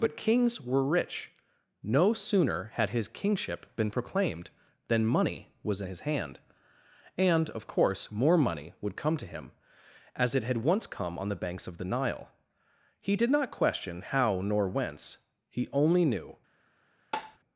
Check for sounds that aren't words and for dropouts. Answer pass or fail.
fail